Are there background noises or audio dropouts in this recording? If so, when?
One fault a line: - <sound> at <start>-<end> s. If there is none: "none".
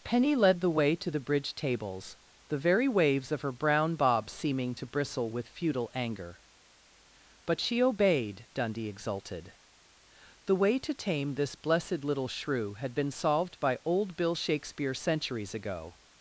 none